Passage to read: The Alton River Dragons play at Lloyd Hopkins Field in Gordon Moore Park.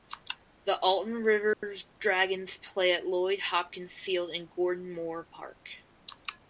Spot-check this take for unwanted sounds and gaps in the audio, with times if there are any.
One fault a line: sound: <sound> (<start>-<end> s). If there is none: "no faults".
sound: dropout (1.5-1.6 s)